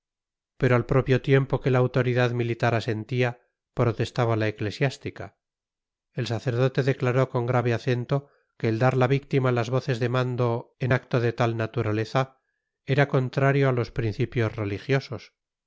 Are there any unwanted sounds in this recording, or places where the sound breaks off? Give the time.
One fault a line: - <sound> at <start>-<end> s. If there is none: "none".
none